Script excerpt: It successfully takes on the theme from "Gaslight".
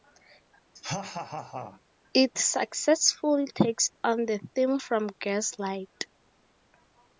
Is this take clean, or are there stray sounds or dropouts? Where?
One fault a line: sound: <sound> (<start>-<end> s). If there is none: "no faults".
sound: laugh (0.8-1.8 s)